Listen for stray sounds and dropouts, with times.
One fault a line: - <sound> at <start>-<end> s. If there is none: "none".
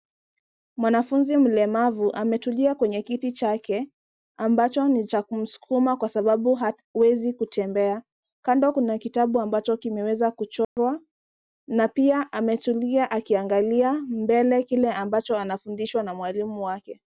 - dropout at 10.6-10.8 s